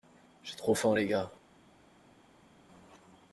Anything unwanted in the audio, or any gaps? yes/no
no